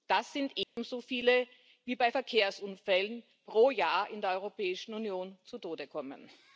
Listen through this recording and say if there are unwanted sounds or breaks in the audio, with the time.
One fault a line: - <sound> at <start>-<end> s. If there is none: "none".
- dropout at 0.6-0.8 s